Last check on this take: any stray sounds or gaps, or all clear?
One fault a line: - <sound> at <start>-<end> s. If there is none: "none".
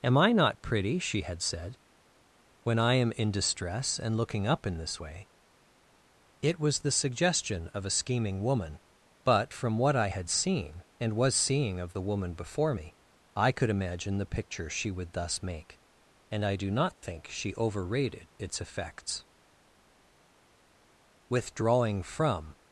none